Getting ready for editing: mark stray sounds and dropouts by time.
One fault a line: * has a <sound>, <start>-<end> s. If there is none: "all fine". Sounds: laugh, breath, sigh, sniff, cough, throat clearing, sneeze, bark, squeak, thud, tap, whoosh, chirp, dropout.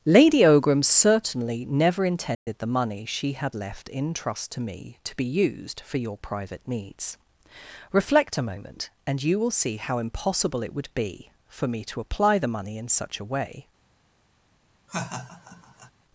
* has a dropout, 2.3-2.5 s
* has a laugh, 14.9-15.9 s